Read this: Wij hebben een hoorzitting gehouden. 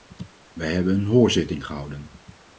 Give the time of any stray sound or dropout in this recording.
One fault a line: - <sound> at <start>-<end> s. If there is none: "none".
none